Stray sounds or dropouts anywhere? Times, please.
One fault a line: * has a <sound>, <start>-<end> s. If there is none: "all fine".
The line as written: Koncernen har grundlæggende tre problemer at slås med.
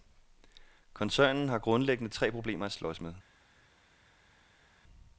all fine